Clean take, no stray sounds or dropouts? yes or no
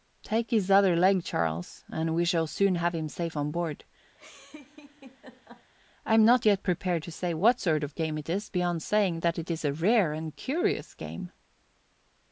no